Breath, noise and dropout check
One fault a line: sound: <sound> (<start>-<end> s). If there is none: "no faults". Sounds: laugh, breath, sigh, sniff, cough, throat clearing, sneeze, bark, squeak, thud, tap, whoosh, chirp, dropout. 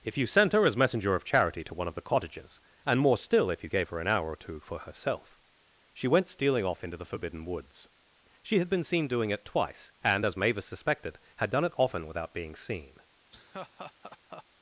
sound: laugh (13.3-14.4 s)